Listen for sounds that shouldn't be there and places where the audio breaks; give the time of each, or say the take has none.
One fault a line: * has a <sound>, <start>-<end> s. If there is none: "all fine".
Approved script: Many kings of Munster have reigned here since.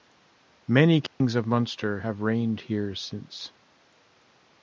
* has a dropout, 1.1-1.2 s